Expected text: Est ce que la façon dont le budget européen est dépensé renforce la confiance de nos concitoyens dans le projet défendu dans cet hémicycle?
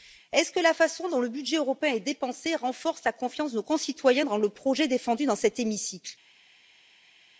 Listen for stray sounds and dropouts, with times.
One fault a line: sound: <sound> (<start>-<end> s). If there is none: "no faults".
no faults